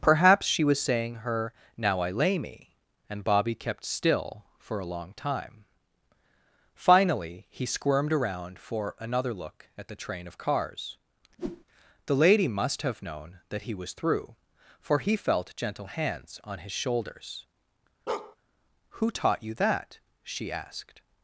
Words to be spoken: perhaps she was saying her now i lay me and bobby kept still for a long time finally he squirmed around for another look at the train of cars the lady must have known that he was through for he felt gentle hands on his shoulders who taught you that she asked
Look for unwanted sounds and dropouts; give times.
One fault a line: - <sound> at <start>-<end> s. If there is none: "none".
- whoosh at 11.4-11.6 s
- bark at 18.1-18.4 s